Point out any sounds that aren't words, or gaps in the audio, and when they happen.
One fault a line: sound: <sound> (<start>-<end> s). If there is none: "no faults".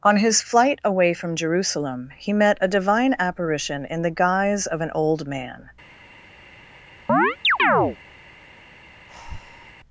sound: chirp (7.1-8.0 s)
sound: breath (9.1-9.7 s)